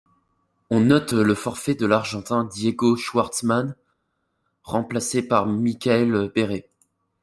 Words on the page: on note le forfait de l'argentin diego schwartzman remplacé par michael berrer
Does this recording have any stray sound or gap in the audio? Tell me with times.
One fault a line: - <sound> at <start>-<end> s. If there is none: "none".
none